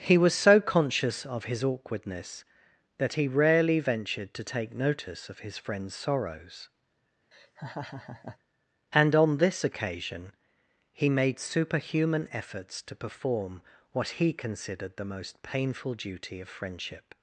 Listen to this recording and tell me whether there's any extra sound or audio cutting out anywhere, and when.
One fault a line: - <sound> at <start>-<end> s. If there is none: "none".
- laugh at 7.3-8.4 s